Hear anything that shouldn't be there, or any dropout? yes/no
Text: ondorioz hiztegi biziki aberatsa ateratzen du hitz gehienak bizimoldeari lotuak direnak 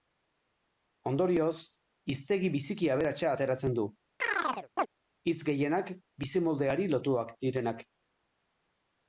yes